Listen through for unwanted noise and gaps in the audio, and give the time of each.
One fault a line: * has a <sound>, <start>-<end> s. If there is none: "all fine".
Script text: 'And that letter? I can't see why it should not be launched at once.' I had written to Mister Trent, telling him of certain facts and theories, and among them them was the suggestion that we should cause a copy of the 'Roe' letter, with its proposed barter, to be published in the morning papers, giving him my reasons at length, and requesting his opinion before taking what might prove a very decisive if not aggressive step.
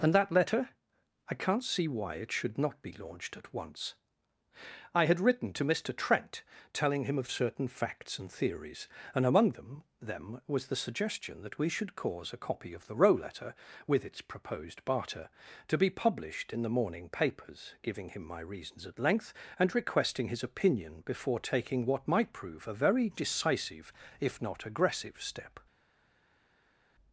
all fine